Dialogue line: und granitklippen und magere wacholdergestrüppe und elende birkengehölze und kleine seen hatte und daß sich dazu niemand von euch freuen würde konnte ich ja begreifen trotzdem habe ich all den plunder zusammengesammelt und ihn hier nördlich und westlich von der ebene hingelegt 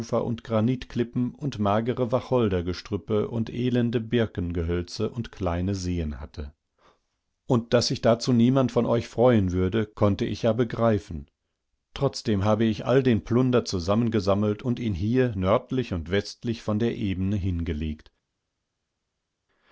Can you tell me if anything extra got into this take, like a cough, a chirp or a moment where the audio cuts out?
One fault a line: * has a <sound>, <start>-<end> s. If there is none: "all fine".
all fine